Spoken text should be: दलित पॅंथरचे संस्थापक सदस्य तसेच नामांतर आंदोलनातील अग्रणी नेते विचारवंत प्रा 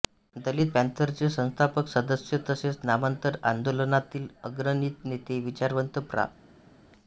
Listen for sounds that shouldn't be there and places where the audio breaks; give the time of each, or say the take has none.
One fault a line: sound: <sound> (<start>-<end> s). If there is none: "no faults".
no faults